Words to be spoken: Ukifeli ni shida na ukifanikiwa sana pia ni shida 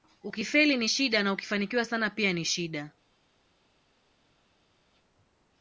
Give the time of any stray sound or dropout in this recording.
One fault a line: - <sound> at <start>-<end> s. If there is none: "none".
none